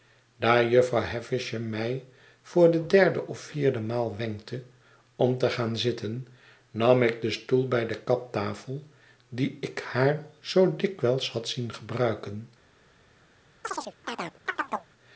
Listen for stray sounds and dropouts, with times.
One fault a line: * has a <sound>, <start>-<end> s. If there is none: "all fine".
* has a chirp, 13.6-14.9 s